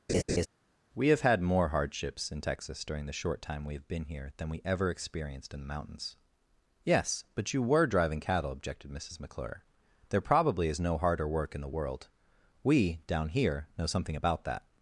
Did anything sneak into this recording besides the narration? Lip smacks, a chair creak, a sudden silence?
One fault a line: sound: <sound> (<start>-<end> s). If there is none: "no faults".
sound: laugh (0.1-0.5 s)